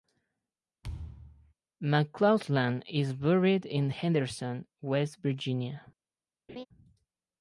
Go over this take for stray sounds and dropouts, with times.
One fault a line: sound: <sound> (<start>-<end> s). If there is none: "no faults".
sound: thud (0.8-1.5 s)
sound: laugh (6.5-6.7 s)